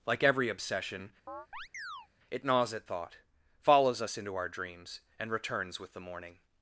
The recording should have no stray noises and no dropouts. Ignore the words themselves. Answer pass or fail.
fail